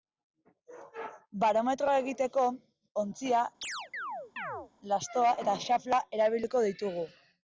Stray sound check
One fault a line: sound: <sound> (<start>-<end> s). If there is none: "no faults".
sound: chirp (3.6-4.7 s)